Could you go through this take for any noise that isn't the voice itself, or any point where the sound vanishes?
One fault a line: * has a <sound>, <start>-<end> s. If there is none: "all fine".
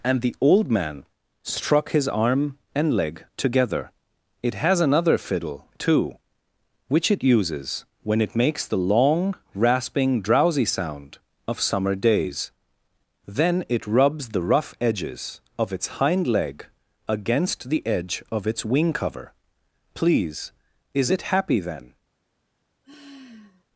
* has a sigh, 22.8-23.6 s